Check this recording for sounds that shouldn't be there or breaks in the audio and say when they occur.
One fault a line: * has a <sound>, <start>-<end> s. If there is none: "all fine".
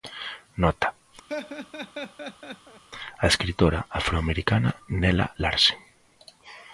* has a laugh, 1.3-2.8 s